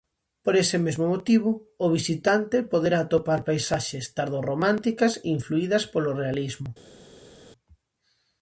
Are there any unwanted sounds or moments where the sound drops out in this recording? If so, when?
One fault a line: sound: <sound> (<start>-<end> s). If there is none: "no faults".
no faults